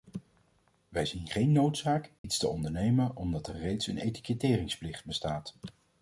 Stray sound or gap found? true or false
true